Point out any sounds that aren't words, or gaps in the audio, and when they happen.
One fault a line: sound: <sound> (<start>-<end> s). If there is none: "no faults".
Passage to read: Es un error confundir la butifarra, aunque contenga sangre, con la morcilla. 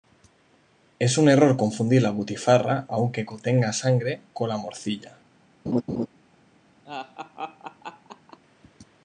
sound: laugh (5.7-6.1 s)
sound: laugh (6.8-8.4 s)